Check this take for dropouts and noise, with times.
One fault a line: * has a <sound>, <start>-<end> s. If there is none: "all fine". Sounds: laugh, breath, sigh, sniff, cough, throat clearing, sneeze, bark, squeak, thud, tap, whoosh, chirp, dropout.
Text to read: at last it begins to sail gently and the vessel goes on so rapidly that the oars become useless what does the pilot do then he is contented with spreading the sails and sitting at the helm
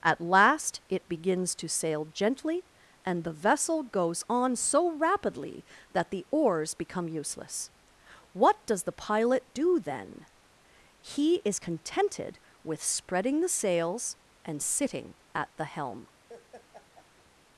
* has a laugh, 16.3-17.3 s